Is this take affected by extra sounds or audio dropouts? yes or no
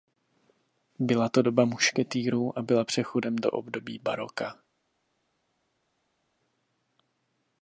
no